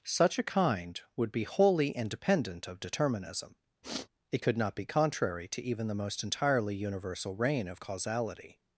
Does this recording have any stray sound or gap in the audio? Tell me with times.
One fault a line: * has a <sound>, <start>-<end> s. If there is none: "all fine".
* has a sniff, 3.8-4.1 s